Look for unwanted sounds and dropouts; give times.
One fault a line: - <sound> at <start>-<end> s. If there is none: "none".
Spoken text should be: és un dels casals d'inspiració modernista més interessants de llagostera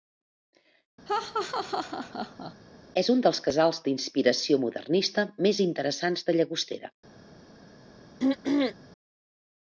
- laugh at 1.1-2.5 s
- throat clearing at 8.2-8.7 s